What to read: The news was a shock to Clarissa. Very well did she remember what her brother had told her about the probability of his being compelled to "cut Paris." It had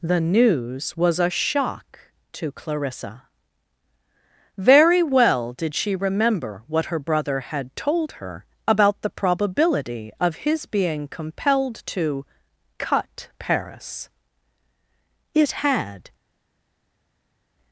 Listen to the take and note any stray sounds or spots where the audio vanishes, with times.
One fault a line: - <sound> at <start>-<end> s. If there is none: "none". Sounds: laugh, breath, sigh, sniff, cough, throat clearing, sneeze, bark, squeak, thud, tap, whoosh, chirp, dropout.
none